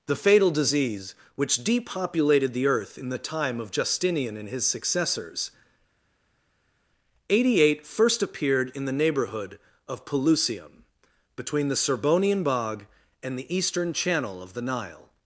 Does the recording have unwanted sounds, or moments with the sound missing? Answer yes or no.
no